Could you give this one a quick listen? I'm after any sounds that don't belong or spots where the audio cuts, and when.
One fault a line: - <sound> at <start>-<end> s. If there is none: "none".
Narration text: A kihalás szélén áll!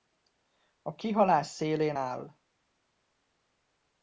none